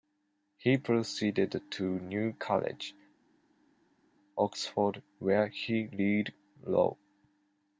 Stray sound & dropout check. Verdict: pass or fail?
pass